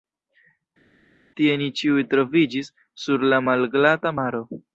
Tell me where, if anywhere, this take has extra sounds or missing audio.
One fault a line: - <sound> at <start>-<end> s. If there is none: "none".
none